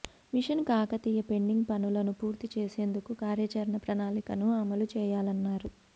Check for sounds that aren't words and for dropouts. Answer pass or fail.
pass